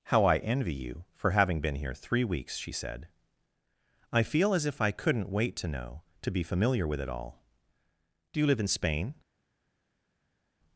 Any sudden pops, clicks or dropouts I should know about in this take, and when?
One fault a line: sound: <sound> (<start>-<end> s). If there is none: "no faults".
no faults